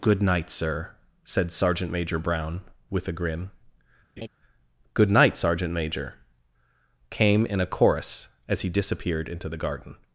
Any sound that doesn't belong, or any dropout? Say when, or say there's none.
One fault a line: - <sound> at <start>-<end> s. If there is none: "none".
- laugh at 4.2-4.3 s